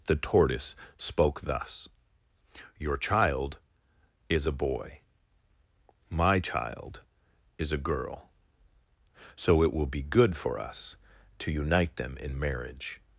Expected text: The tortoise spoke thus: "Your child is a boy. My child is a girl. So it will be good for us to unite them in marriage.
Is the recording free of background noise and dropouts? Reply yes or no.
yes